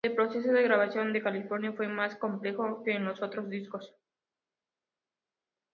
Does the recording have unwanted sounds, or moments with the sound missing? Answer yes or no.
no